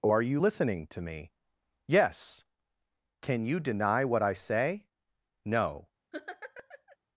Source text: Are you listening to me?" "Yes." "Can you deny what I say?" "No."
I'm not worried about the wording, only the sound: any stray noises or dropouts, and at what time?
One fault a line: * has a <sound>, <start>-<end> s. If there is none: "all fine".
* has a laugh, 6.1-7.0 s